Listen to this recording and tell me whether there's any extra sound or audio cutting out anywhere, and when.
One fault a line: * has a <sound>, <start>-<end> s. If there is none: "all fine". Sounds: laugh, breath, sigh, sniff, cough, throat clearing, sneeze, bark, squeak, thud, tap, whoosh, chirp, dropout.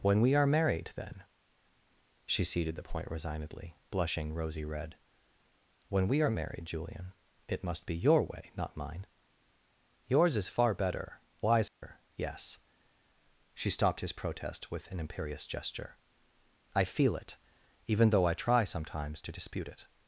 * has a dropout, 11.7-11.8 s